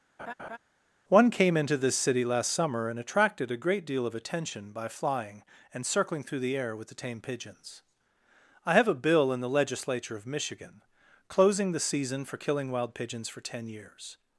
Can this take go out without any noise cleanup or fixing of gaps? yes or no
no